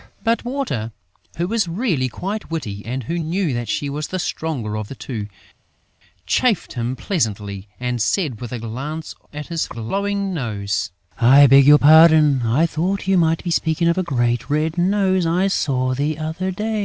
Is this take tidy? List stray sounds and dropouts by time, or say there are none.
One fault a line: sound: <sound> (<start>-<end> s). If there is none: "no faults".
no faults